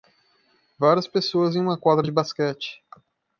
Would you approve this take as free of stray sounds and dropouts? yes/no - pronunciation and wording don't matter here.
yes